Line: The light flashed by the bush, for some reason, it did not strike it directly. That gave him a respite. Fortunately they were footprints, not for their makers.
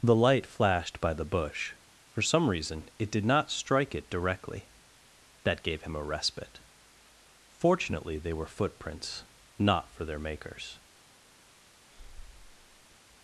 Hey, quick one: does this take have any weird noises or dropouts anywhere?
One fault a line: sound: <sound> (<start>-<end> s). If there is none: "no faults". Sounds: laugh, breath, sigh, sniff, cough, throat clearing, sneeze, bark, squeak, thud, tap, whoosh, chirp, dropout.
sound: breath (11.9-13.0 s)